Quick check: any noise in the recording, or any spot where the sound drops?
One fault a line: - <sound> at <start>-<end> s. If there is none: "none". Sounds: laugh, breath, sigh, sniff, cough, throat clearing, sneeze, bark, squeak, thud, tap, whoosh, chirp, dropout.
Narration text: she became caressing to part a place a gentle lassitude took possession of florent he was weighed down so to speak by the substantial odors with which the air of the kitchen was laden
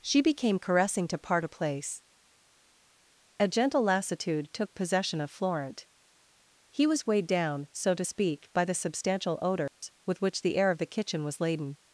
- dropout at 9.7-9.8 s